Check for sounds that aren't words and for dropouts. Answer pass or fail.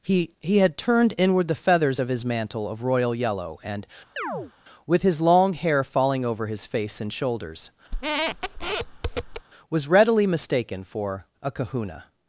fail